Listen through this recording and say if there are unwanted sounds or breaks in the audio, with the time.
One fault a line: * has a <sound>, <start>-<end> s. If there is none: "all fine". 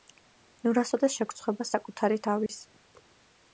* has a dropout, 2.5-2.5 s